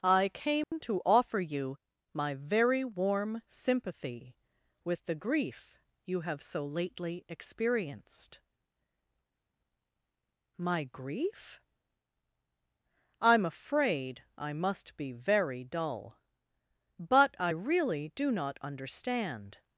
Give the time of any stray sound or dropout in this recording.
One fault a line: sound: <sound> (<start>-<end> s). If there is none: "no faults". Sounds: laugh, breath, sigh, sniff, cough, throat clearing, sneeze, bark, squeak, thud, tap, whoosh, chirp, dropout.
sound: dropout (0.6-0.7 s)